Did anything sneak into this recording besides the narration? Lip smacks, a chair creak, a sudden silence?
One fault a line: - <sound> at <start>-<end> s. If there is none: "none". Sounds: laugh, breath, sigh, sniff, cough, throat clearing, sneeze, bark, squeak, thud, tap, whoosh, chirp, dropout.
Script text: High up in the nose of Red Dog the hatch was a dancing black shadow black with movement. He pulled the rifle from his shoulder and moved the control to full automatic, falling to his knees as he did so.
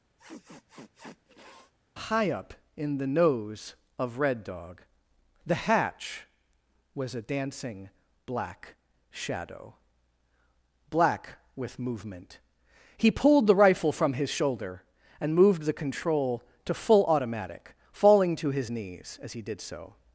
- sniff at 0.2-1.7 s